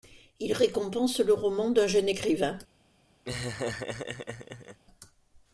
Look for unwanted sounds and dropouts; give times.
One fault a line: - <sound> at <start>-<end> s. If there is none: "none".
- laugh at 3.2-4.8 s